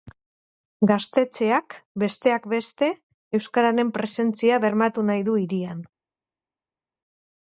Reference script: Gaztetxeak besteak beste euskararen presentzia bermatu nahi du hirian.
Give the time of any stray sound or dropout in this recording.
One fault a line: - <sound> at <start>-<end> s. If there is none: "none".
none